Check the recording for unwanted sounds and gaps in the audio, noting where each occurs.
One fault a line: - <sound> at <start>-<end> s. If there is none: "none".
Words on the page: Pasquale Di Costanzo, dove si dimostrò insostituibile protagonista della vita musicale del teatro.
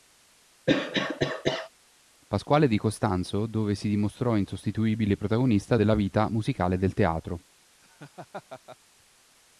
- cough at 0.7-1.7 s
- laugh at 7.8-8.8 s